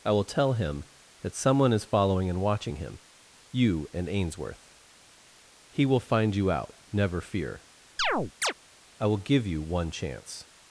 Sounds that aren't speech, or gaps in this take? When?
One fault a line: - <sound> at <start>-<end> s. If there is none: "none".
- chirp at 8.0-8.5 s